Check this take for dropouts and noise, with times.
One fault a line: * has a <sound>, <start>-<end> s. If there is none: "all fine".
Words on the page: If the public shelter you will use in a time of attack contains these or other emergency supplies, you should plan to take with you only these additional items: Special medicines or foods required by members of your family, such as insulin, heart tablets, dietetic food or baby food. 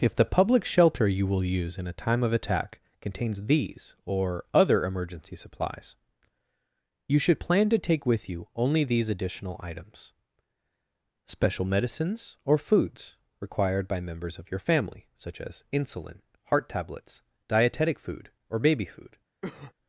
* has a cough, 19.4-19.7 s